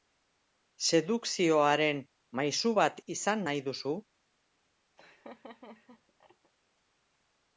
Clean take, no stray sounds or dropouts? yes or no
no